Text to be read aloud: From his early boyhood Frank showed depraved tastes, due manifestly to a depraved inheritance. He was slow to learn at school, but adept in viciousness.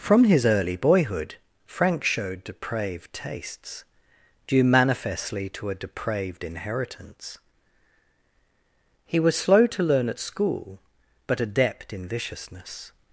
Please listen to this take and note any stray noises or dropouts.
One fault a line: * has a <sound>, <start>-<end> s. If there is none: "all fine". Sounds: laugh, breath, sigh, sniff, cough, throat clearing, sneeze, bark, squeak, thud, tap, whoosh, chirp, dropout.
all fine